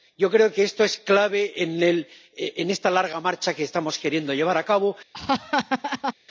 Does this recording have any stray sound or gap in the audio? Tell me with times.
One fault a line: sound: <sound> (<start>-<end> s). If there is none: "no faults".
sound: laugh (5.1-6.1 s)